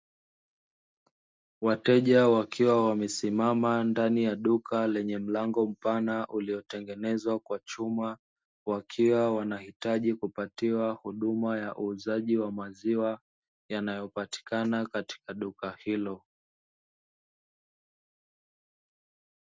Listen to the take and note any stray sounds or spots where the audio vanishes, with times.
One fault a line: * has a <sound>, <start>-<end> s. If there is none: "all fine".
all fine